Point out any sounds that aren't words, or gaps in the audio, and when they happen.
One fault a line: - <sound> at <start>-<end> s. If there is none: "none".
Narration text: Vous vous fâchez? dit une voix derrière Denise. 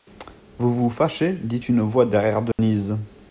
- dropout at 2.5-2.6 s